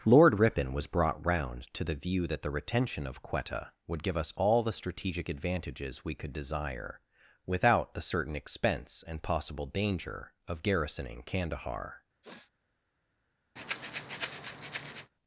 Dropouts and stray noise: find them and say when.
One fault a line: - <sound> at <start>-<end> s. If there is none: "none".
- sniff at 12.2-12.5 s
- breath at 13.6-15.1 s